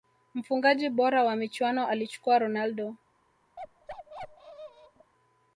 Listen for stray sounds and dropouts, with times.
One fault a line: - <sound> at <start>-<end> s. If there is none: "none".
- bark at 3.6-5.1 s